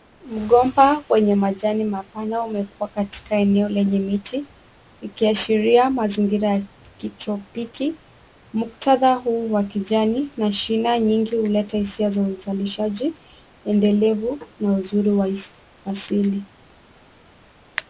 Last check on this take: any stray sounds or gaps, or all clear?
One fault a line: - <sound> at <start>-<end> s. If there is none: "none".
none